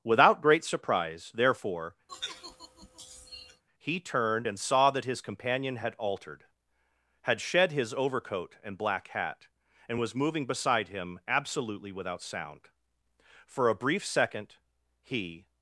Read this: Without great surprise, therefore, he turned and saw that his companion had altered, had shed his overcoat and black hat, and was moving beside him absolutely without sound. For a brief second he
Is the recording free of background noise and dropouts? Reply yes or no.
no